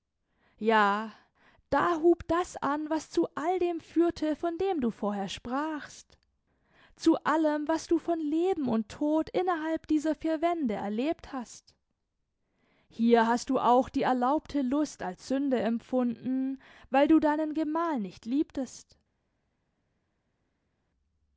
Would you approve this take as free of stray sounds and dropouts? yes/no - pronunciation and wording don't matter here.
yes